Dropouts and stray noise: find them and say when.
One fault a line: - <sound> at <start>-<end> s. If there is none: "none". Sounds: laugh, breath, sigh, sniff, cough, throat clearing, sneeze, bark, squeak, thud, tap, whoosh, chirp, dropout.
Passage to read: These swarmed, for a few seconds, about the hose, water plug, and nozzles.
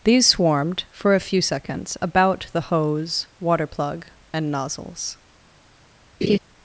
- laugh at 6.2-6.4 s